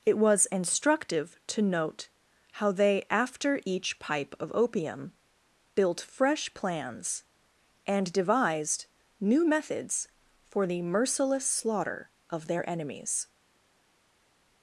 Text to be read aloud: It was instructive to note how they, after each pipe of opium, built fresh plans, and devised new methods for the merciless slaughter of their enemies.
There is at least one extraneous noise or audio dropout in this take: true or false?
false